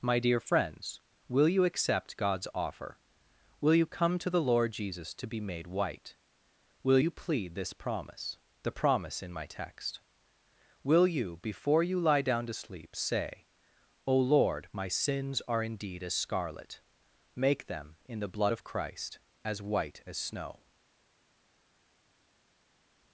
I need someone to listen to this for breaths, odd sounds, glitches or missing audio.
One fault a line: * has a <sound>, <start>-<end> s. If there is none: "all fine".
all fine